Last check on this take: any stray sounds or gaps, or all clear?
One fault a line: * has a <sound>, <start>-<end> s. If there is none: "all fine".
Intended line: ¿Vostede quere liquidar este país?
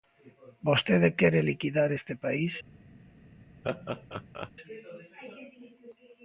* has a laugh, 3.6-4.5 s